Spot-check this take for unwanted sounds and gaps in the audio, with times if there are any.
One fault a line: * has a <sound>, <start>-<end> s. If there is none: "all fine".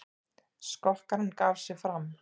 all fine